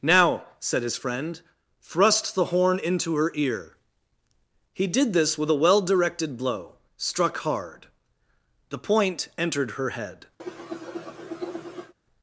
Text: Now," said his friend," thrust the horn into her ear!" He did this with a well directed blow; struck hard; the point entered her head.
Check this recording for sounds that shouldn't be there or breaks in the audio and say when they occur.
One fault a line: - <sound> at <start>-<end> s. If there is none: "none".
- cough at 10.4-11.9 s